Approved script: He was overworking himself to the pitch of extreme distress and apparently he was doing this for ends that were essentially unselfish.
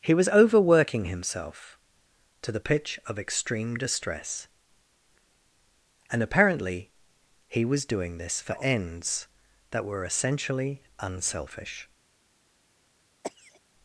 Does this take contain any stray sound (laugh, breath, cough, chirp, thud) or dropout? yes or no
yes